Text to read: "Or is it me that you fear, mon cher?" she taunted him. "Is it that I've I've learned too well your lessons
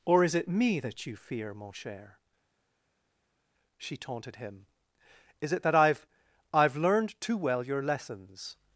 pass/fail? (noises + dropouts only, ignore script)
pass